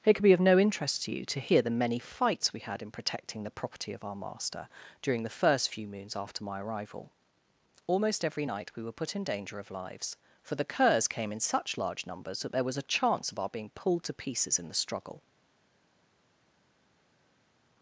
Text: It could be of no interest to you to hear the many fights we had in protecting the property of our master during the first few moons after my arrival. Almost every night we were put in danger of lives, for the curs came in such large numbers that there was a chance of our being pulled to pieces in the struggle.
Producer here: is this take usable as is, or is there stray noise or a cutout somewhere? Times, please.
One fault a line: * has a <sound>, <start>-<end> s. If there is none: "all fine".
all fine